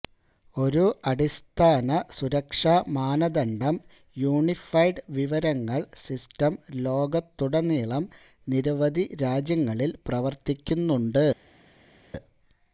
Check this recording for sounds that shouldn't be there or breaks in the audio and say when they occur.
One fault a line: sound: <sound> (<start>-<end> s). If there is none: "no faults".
no faults